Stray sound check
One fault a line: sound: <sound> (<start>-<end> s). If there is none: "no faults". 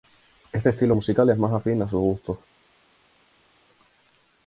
no faults